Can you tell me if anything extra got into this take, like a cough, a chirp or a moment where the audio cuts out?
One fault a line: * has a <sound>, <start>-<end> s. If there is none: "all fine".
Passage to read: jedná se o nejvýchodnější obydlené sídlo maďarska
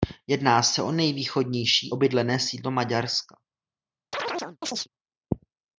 * has a chirp, 4.1-4.9 s